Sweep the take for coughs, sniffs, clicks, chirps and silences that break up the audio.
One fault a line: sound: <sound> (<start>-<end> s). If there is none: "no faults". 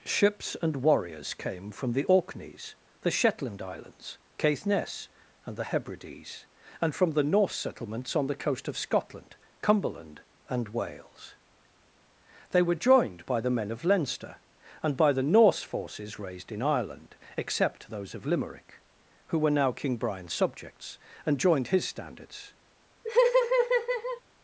sound: laugh (23.0-24.2 s)